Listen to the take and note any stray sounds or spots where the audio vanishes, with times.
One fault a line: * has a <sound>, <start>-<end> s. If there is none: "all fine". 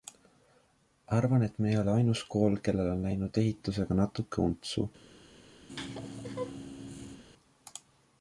* has a laugh, 5.7-7.2 s